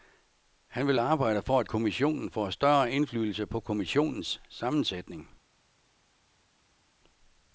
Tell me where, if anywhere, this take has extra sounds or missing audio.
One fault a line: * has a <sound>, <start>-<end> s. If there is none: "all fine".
all fine